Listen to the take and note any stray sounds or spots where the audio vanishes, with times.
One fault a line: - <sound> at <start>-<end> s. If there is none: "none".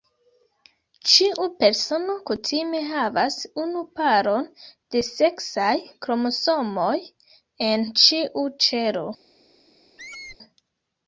- squeak at 10.0-10.4 s